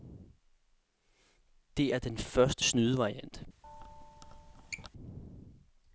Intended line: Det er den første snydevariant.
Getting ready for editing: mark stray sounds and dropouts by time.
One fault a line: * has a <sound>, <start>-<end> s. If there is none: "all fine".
* has a squeak, 3.6-4.9 s